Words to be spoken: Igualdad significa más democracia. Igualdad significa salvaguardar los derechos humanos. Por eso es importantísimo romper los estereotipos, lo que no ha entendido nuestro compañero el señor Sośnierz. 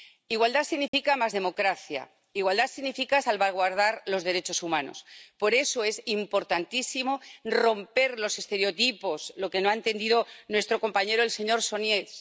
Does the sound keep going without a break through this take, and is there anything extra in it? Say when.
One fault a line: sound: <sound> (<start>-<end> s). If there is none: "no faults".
sound: dropout (0.9-0.9 s)